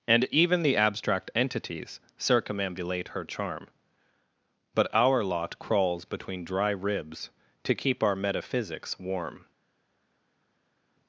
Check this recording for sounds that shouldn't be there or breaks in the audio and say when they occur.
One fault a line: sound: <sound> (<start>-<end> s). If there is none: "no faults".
no faults